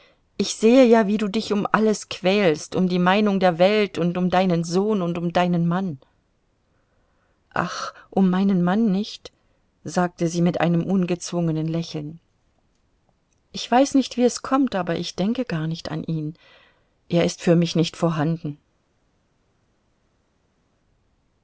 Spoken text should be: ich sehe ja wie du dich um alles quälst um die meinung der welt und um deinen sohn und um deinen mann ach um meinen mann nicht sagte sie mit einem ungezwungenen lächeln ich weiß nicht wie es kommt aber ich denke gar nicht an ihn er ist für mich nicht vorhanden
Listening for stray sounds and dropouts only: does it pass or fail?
pass